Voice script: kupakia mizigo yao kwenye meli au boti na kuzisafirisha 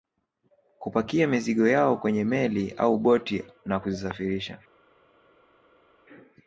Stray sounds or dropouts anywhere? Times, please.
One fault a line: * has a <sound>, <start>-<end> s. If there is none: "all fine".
all fine